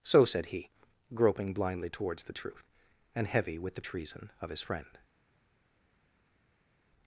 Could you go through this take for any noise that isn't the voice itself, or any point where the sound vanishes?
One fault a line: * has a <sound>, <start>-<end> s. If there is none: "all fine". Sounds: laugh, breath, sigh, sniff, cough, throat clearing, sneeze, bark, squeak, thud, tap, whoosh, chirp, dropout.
all fine